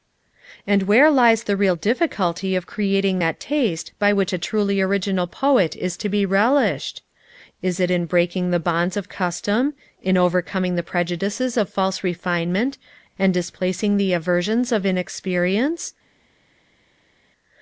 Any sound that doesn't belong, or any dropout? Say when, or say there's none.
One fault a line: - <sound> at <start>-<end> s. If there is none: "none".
none